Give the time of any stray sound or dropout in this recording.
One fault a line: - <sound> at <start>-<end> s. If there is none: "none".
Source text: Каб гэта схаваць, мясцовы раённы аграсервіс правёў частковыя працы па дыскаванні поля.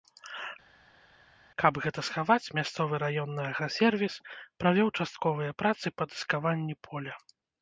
none